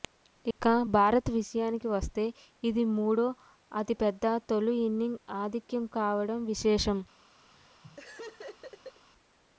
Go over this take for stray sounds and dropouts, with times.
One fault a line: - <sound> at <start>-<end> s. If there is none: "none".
- dropout at 0.5-0.6 s
- laugh at 7.5-9.1 s